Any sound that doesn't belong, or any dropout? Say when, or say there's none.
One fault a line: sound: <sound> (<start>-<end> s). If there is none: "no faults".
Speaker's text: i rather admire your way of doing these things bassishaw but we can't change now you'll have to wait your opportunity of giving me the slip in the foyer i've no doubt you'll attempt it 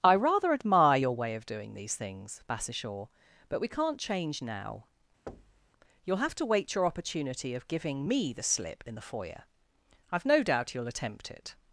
sound: thud (5.3-5.7 s)